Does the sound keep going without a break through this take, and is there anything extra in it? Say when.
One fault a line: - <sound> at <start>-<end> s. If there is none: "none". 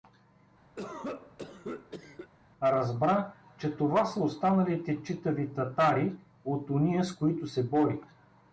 - cough at 0.8-2.3 s